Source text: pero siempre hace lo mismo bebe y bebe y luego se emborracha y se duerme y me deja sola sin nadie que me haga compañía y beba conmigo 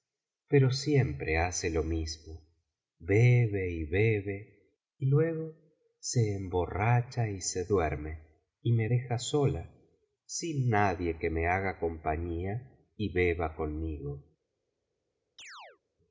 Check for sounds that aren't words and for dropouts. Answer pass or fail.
fail